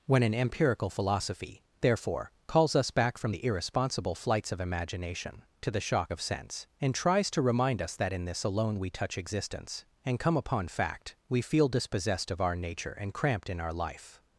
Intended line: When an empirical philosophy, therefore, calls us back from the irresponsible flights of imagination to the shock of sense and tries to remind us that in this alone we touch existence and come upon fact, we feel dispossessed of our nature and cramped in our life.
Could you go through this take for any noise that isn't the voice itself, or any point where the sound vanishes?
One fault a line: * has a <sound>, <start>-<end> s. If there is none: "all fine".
all fine